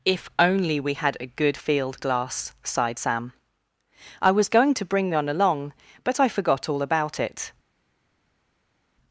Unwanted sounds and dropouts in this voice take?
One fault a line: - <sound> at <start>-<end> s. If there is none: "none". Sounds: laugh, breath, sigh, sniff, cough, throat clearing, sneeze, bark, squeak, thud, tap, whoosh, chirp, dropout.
none